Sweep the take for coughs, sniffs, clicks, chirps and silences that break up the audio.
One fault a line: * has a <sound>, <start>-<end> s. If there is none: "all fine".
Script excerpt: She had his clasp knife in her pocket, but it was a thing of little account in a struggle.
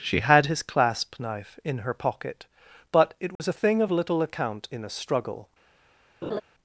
* has a dropout, 3.4-3.4 s
* has a laugh, 6.2-6.4 s